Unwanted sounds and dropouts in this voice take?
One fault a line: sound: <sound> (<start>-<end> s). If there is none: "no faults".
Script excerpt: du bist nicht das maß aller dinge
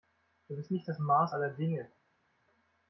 no faults